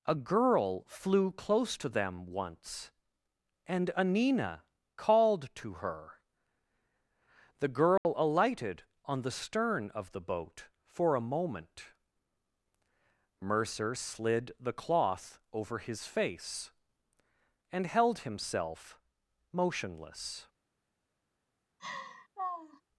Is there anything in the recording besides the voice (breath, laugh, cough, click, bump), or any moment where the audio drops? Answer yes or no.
yes